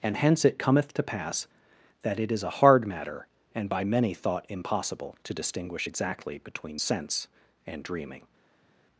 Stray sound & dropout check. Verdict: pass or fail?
pass